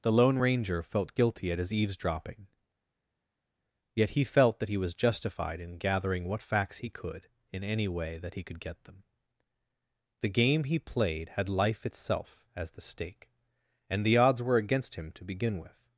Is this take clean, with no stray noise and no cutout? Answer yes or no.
yes